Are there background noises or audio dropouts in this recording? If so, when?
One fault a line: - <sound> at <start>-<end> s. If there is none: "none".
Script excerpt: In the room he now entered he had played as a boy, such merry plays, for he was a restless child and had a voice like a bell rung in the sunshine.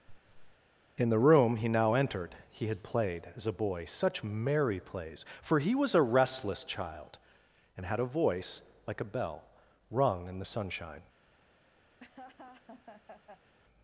- laugh at 0.1-0.6 s
- laugh at 12.0-13.5 s